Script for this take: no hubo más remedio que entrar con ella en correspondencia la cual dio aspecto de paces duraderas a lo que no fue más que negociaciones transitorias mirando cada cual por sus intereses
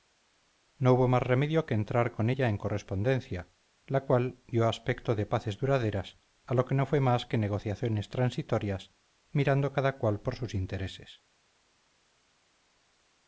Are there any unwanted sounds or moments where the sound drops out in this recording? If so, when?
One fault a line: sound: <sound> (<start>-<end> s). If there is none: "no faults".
no faults